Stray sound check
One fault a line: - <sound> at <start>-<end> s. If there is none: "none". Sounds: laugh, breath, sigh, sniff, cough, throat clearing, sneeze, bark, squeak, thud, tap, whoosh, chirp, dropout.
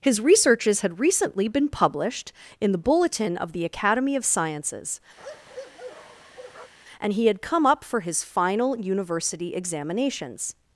- bark at 5.2-6.7 s